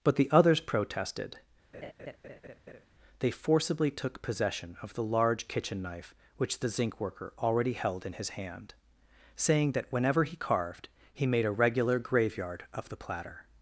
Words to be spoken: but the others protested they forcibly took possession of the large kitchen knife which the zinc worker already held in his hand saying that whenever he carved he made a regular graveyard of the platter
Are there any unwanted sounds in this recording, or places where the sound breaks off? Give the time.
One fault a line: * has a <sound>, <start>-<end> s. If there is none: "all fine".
* has a laugh, 1.7-2.9 s